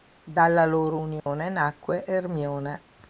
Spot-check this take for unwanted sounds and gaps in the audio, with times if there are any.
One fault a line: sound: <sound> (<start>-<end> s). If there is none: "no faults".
sound: dropout (1.2-1.3 s)